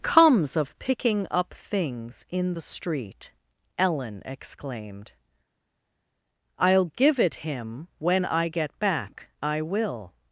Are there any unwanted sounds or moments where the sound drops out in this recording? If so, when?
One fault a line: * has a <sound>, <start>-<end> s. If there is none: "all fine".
all fine